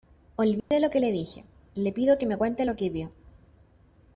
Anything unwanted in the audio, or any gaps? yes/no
yes